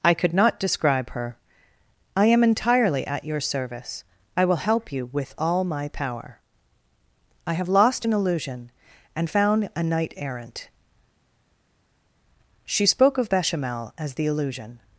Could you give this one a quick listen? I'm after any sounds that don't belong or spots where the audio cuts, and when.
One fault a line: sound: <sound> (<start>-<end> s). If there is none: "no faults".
no faults